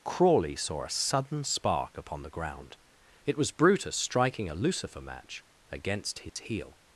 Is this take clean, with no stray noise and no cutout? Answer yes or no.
no